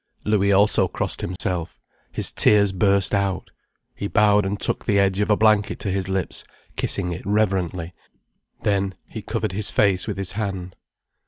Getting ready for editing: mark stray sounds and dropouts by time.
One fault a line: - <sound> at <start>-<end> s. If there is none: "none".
- dropout at 1.4-1.4 s